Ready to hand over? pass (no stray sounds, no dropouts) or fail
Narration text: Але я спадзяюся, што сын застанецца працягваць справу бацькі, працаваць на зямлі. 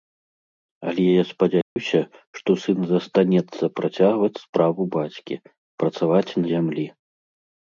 fail